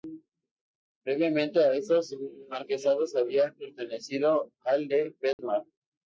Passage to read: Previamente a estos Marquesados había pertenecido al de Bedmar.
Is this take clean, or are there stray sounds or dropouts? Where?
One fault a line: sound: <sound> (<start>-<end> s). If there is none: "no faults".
sound: dropout (5.3-5.4 s)